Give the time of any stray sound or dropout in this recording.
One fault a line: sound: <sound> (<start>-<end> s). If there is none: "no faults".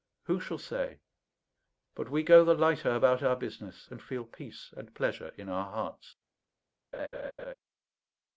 sound: laugh (6.9-7.5 s)